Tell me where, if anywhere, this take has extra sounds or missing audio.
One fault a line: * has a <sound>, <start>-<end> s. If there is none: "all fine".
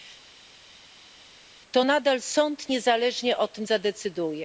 all fine